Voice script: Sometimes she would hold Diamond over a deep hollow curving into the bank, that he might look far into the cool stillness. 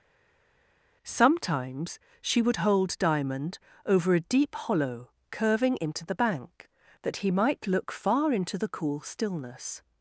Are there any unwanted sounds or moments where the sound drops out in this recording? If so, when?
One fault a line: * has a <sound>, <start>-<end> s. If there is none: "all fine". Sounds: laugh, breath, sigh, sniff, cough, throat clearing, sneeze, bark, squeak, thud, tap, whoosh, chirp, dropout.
all fine